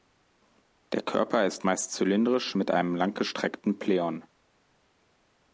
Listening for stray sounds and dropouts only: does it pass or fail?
pass